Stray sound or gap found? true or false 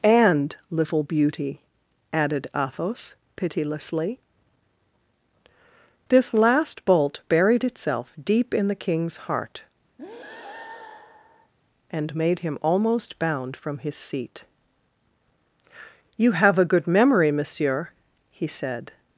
true